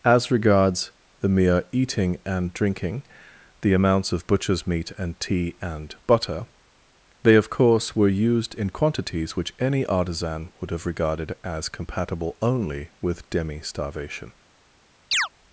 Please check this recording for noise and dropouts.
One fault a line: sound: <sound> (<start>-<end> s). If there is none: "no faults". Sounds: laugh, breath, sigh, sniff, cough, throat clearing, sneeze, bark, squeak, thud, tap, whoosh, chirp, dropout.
sound: chirp (15.1-15.3 s)